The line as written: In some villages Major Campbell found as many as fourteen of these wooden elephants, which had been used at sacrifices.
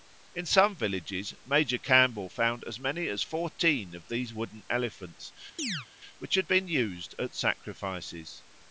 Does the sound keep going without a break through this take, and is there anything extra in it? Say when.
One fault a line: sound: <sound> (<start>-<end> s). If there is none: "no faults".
sound: chirp (5.6-5.9 s)